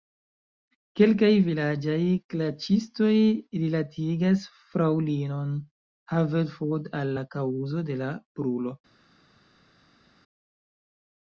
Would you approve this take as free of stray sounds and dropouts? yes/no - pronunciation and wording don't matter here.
yes